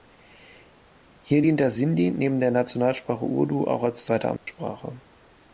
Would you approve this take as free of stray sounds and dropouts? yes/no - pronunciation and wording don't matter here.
no